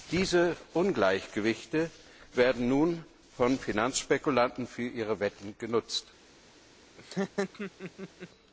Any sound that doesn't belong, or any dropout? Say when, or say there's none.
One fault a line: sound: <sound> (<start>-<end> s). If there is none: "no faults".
sound: laugh (7.0-8.3 s)